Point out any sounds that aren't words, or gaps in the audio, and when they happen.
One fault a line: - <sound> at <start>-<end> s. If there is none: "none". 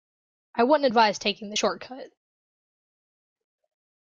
none